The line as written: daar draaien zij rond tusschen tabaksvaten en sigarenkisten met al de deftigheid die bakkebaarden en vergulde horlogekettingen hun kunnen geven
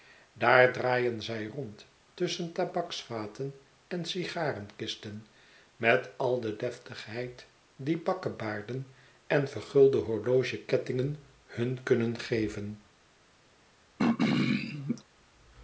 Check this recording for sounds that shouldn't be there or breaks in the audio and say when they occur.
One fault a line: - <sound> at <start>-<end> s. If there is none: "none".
- throat clearing at 14.0-15.0 s